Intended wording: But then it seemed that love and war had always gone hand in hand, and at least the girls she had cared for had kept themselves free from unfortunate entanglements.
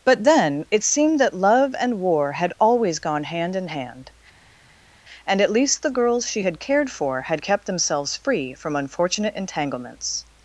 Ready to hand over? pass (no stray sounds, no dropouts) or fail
pass